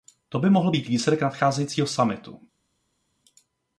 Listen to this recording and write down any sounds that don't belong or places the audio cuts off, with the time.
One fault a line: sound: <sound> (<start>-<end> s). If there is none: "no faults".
no faults